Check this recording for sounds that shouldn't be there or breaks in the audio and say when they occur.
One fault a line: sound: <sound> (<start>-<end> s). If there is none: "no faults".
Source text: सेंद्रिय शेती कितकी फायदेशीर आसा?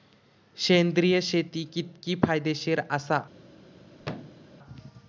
sound: thud (4.0-4.5 s)